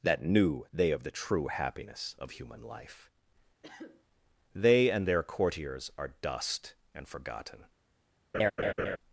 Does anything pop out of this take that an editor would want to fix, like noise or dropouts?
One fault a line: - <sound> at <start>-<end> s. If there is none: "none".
- cough at 3.6-4.0 s
- laugh at 8.3-9.0 s